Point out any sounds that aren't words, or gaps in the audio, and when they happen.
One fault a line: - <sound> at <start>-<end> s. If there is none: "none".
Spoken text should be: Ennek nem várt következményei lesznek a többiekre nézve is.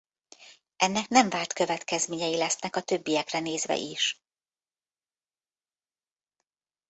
none